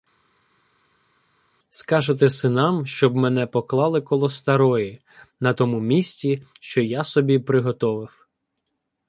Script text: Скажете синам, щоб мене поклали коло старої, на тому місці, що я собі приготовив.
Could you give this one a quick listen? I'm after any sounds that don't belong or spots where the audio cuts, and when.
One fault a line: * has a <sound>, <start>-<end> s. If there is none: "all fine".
all fine